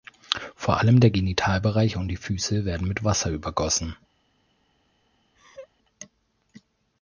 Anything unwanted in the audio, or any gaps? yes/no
yes